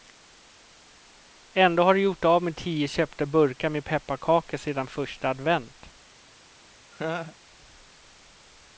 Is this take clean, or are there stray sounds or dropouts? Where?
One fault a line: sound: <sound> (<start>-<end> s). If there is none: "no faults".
sound: laugh (6.9-7.4 s)